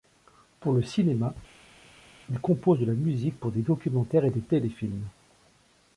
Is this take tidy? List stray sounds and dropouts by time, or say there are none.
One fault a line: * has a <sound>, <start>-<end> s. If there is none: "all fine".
all fine